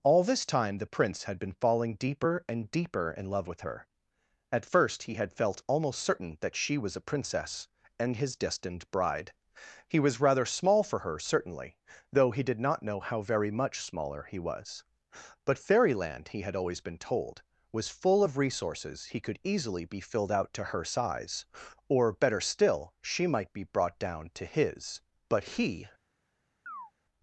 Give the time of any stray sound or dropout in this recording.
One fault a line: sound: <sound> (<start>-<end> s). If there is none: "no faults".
sound: chirp (26.7-26.9 s)